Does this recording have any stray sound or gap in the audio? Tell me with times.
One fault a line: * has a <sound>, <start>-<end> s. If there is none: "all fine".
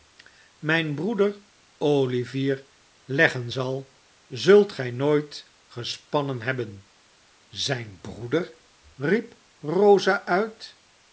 all fine